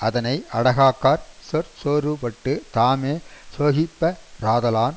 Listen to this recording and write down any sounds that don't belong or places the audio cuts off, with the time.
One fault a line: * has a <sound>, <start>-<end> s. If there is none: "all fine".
all fine